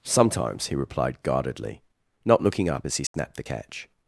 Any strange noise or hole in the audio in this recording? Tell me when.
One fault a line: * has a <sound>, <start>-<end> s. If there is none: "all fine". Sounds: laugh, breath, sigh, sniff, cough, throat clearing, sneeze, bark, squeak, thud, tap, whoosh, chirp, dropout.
* has a dropout, 3.1-3.1 s